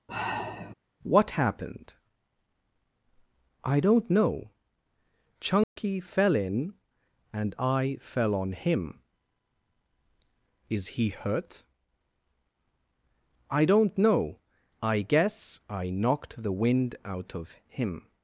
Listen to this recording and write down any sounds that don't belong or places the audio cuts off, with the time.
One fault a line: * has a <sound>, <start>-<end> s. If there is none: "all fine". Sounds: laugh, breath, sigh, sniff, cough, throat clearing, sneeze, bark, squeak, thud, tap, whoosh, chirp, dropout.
* has a sigh, 0.1-0.7 s
* has a dropout, 5.6-5.8 s